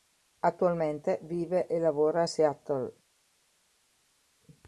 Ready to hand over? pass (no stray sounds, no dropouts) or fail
pass